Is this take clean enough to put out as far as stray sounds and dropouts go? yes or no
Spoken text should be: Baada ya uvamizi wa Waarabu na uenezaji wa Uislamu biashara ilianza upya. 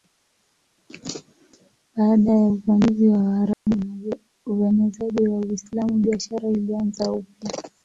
no